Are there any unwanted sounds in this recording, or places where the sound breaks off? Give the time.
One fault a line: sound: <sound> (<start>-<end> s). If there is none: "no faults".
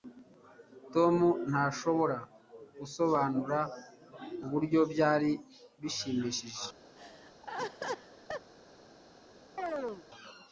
sound: laugh (7.0-8.5 s)
sound: chirp (9.6-10.1 s)